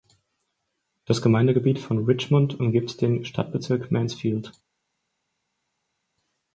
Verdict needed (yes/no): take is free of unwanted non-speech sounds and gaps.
yes